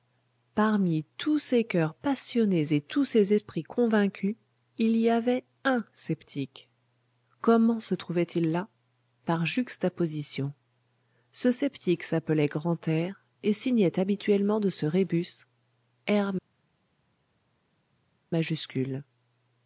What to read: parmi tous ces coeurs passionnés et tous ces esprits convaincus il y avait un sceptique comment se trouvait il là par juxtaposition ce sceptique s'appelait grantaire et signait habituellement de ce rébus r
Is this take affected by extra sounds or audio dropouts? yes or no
no